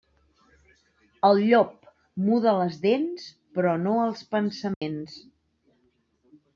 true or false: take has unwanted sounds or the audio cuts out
true